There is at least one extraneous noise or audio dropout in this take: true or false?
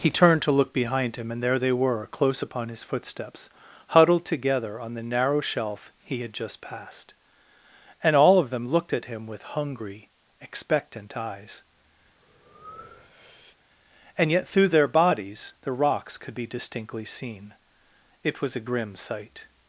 true